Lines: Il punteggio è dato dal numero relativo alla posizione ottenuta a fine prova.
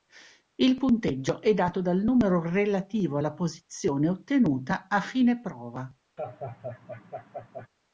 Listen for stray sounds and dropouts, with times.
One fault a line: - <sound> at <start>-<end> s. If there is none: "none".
- laugh at 6.2-7.7 s